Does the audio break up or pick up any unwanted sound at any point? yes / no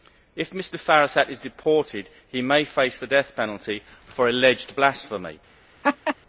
yes